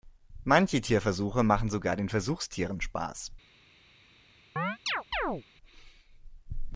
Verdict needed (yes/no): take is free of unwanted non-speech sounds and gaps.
no